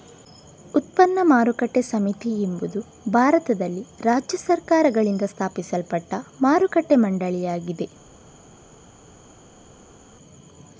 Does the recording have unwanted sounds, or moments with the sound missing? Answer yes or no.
no